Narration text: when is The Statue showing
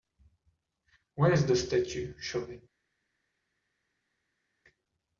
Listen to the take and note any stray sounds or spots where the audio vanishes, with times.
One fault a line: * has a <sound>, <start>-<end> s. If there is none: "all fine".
all fine